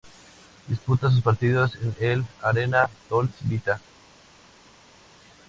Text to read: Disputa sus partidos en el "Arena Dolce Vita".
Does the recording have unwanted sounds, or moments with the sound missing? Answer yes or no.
no